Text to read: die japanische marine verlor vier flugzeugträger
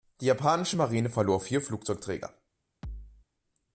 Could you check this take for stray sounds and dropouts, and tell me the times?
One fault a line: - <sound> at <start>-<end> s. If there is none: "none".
- thud at 2.8-3.3 s